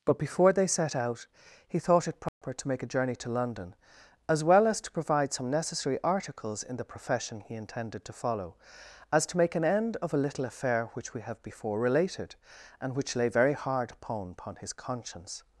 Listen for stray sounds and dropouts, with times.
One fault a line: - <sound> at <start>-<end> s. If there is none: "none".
- dropout at 2.3-2.4 s